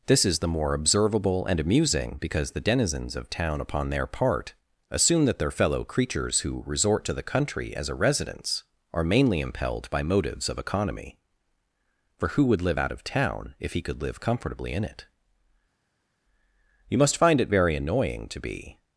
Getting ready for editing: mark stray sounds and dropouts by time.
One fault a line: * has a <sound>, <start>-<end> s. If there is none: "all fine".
all fine